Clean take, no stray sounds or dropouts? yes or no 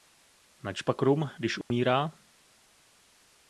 no